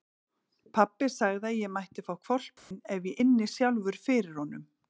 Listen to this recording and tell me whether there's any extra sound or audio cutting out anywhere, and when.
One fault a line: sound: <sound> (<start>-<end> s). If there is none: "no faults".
sound: dropout (2.6-2.7 s)